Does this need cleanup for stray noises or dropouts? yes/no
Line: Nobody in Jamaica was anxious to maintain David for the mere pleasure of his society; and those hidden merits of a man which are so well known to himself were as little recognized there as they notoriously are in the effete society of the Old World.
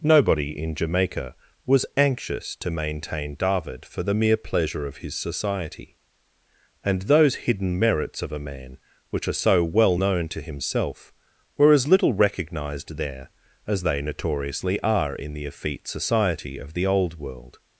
no